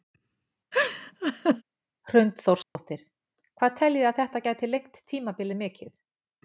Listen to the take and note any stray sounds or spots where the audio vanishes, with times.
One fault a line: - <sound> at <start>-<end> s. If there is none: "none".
- laugh at 0.7-1.6 s
- dropout at 2.6-2.8 s